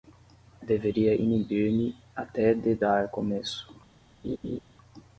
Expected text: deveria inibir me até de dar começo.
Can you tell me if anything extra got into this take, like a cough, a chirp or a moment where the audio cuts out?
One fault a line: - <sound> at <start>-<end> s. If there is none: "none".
- laugh at 4.2-4.6 s